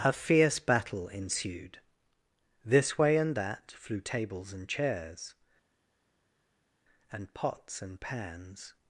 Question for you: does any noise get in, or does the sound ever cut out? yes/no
no